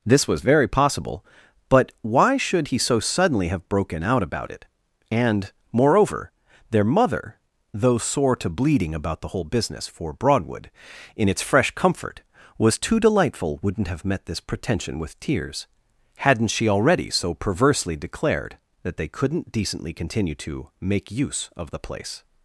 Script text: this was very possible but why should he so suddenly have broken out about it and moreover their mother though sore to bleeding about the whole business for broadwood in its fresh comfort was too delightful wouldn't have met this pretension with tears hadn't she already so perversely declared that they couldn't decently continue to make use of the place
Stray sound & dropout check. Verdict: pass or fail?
pass